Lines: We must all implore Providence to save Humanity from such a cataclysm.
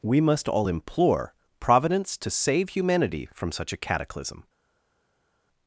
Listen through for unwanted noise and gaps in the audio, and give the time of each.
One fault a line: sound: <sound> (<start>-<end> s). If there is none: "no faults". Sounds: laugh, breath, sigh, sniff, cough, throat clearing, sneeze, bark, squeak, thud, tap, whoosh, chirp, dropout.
no faults